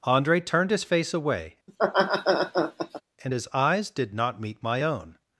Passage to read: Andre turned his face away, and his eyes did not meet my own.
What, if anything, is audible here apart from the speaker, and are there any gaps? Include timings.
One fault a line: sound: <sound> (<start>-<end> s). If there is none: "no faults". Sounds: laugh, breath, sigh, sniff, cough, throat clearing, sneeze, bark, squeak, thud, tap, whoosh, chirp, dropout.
sound: laugh (1.7-3.0 s)